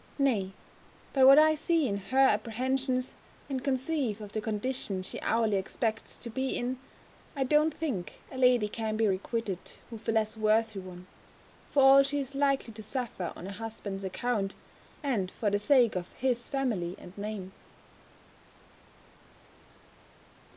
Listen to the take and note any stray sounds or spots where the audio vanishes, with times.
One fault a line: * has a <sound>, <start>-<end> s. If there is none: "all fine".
all fine